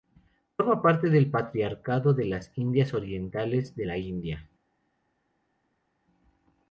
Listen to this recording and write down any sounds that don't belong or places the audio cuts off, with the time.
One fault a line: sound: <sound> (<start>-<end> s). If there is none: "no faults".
no faults